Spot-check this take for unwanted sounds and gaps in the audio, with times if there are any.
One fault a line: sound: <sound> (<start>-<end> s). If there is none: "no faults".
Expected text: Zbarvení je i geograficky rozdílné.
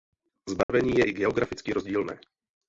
sound: dropout (0.6-0.7 s)